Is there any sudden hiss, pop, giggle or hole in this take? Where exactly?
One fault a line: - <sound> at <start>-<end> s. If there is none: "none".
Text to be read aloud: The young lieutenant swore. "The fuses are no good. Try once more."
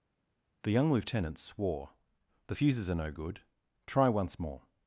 none